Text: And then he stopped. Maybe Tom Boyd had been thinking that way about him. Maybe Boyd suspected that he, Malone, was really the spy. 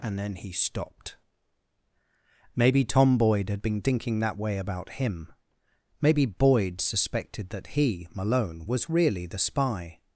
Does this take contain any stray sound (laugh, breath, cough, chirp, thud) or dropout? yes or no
no